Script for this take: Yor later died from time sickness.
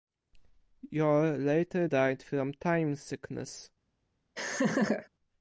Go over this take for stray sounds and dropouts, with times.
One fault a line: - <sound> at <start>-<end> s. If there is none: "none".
- laugh at 4.4-5.1 s